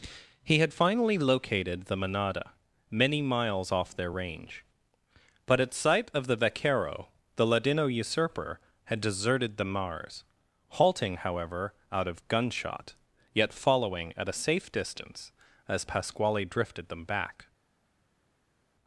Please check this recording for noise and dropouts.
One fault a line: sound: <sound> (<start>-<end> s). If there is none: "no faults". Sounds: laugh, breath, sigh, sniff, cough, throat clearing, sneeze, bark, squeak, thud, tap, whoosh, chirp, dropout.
no faults